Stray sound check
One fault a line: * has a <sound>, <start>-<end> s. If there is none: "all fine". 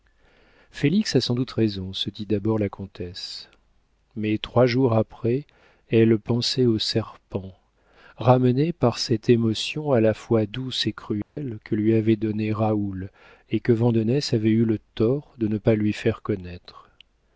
* has a dropout, 11.2-11.4 s